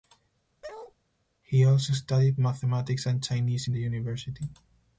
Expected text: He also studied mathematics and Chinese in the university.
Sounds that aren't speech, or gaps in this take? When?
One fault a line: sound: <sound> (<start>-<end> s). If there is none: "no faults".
sound: bark (0.6-0.9 s)